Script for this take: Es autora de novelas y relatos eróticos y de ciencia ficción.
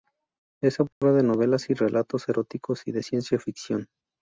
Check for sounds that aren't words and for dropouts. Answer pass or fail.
fail